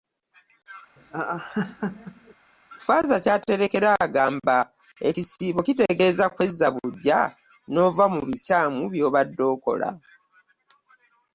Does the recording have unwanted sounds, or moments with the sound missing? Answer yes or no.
yes